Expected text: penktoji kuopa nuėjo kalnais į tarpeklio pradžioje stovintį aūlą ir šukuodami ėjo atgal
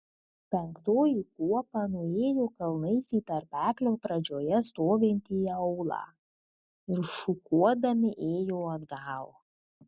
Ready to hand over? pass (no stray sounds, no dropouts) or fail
pass